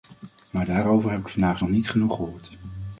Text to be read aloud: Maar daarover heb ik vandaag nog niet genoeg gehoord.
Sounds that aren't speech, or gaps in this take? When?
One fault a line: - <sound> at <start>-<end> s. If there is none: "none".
none